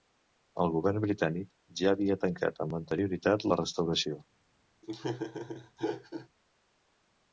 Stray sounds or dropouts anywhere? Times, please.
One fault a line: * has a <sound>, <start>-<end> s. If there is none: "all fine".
* has a laugh, 4.8-6.3 s